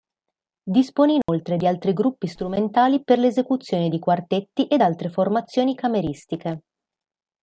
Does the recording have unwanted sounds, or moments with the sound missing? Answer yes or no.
yes